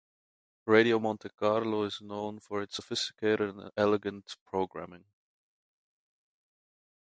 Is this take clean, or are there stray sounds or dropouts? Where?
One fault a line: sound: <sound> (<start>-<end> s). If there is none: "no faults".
no faults